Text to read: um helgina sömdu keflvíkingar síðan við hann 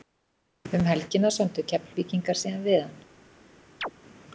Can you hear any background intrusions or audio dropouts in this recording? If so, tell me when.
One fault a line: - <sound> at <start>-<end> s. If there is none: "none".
- chirp at 3.8-3.9 s